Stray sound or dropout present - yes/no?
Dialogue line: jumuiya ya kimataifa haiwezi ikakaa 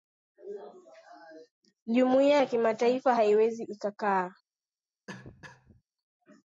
yes